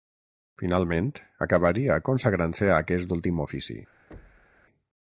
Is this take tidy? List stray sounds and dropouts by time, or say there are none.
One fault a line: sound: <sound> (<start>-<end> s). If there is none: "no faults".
sound: thud (4.1-4.6 s)